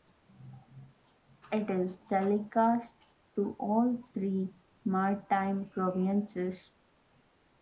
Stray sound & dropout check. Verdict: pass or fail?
pass